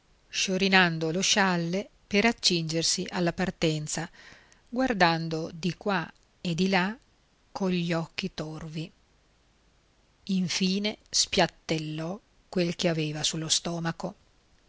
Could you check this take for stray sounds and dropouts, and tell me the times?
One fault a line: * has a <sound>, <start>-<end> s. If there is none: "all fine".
all fine